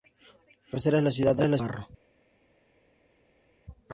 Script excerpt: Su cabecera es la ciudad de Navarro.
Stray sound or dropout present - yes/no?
no